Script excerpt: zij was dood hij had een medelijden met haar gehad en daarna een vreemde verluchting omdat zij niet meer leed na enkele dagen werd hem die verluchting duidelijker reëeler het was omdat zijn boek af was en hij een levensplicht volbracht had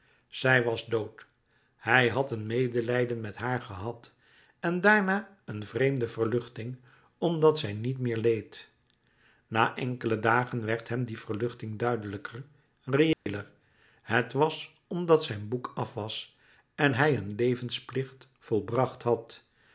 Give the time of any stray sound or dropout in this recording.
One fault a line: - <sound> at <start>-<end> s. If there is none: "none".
- dropout at 13.1-13.3 s